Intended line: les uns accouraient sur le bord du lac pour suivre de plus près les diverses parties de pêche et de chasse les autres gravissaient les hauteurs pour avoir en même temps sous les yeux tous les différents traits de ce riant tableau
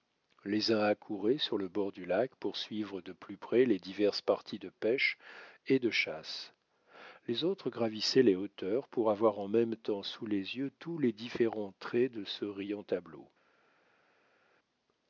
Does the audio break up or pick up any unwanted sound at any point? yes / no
no